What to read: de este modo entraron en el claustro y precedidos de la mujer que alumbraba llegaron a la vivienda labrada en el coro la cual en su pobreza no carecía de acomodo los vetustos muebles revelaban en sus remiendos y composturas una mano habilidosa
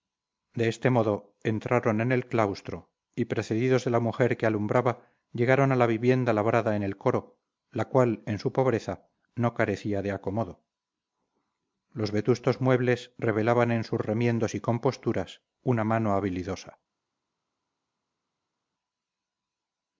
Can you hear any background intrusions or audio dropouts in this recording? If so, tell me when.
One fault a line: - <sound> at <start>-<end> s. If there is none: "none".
none